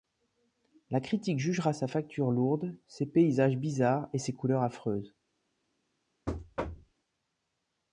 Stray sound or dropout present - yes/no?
yes